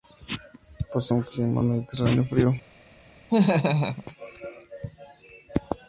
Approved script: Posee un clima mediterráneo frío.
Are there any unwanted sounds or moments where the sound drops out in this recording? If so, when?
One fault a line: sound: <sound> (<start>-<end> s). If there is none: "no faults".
sound: laugh (3.3-4.0 s)